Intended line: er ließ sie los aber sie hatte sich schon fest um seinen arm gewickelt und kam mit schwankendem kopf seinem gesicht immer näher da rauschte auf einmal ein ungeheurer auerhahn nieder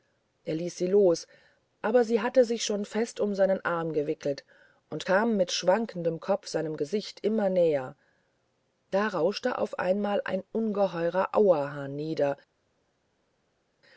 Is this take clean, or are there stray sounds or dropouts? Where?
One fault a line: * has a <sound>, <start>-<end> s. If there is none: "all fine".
all fine